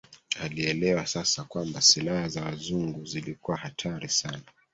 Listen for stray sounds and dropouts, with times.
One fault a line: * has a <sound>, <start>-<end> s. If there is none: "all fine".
all fine